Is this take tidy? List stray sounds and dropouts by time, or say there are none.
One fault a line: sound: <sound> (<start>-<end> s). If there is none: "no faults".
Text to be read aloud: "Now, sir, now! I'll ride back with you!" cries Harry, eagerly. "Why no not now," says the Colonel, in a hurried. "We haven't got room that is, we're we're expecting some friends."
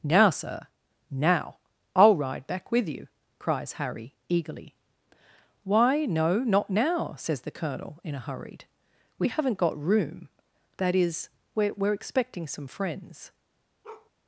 sound: bark (13.8-14.1 s)